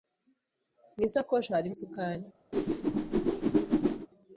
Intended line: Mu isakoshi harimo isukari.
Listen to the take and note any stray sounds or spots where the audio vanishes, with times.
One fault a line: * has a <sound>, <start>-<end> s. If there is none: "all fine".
* has a whoosh, 2.5-4.1 s